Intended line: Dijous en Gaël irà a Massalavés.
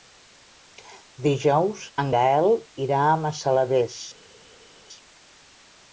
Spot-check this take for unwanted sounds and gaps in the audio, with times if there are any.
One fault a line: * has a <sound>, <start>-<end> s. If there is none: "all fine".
all fine